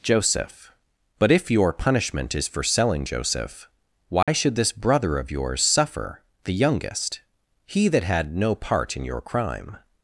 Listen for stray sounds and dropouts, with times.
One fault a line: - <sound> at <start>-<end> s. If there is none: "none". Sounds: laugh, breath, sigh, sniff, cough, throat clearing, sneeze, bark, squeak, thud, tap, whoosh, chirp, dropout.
- dropout at 4.2-4.3 s